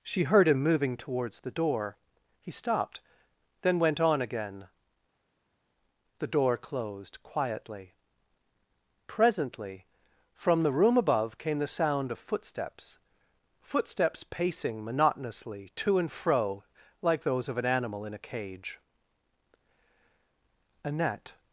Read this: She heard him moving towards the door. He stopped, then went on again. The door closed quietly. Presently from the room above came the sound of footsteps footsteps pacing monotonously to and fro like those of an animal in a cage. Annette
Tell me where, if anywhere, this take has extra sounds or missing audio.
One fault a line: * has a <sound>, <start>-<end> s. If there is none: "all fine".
all fine